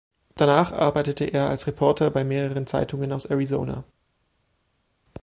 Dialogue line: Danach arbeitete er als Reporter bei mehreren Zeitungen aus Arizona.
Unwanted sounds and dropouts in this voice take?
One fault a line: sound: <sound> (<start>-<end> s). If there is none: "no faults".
no faults